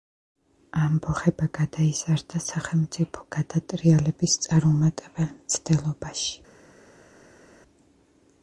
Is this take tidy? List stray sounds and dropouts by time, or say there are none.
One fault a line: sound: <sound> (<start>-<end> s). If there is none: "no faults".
no faults